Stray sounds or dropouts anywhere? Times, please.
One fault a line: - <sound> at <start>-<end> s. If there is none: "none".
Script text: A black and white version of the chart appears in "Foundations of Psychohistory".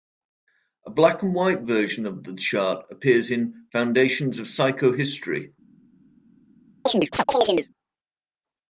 - chirp at 6.9-7.7 s